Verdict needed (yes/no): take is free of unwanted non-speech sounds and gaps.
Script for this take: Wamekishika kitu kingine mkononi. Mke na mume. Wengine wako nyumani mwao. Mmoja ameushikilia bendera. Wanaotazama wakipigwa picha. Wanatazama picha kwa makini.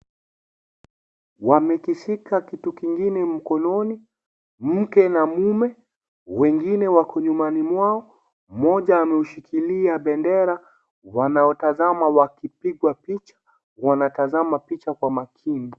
yes